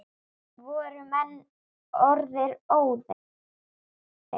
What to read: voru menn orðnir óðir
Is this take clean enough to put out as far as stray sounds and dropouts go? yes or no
yes